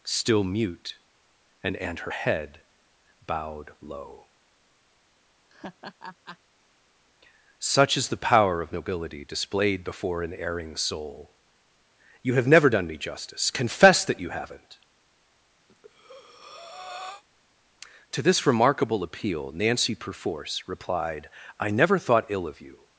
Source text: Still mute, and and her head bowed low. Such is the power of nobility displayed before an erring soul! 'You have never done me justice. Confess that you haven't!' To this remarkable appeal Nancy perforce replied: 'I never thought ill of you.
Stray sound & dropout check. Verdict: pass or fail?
fail